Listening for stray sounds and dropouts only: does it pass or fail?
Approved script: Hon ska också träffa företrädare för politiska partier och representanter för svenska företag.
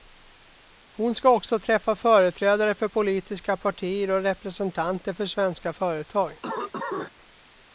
fail